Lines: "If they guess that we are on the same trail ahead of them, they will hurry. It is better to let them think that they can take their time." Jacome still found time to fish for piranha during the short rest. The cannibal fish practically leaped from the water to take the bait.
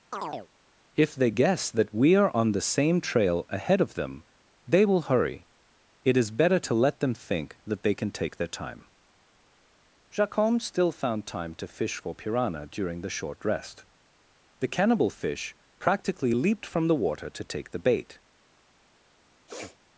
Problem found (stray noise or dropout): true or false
true